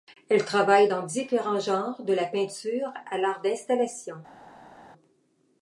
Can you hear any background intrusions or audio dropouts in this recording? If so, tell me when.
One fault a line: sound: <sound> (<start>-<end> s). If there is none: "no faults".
no faults